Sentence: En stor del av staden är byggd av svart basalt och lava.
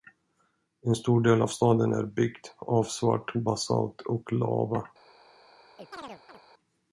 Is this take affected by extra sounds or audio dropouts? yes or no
yes